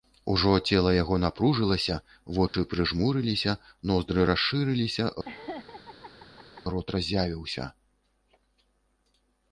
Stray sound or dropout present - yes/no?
yes